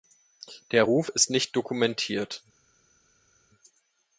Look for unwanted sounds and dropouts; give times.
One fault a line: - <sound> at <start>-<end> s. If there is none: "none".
none